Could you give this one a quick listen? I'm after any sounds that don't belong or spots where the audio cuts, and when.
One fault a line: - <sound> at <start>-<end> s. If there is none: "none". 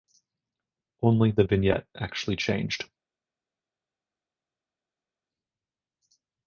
none